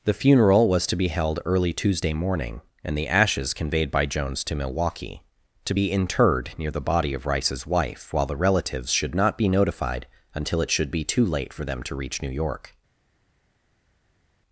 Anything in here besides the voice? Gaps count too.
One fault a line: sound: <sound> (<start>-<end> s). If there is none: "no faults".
no faults